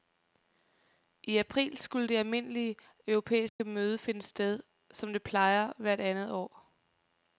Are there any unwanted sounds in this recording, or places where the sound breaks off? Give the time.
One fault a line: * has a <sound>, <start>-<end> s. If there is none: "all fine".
* has a dropout, 3.5-3.6 s